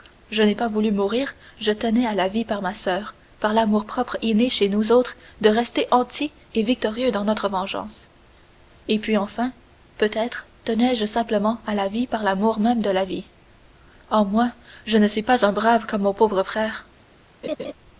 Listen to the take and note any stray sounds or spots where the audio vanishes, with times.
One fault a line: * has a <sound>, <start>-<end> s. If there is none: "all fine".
* has a laugh, 17.4-17.7 s